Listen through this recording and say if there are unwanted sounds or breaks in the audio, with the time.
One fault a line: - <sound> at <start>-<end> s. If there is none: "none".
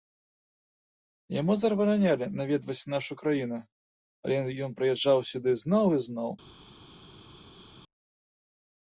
none